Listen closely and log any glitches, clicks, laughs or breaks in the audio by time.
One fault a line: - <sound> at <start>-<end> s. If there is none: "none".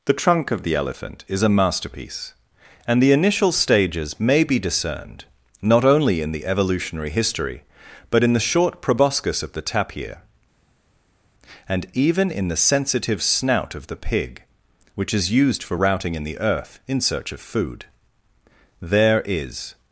none